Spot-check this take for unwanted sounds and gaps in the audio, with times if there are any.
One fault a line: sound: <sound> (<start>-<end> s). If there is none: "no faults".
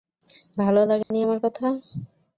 sound: dropout (1.0-1.1 s)